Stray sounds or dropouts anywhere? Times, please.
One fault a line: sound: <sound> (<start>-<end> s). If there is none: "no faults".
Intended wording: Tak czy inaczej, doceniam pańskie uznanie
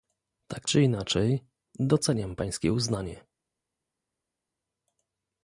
no faults